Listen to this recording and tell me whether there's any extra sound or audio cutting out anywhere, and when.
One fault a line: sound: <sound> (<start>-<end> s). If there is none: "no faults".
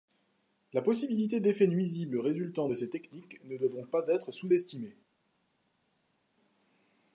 no faults